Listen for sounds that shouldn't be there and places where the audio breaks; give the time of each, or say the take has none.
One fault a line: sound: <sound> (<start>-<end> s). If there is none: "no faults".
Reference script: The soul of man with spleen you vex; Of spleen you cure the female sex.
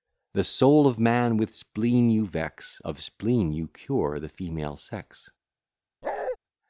sound: bark (6.0-6.4 s)